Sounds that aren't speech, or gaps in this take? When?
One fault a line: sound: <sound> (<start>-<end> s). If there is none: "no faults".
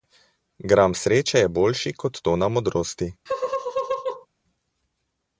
sound: laugh (3.3-4.3 s)